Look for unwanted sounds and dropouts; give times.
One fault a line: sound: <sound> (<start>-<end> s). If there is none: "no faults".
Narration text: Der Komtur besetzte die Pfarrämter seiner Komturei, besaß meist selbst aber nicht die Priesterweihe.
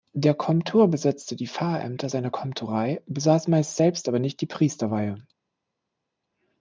no faults